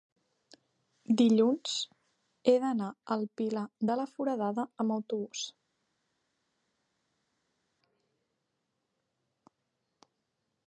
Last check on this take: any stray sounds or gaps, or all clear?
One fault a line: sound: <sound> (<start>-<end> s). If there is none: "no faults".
no faults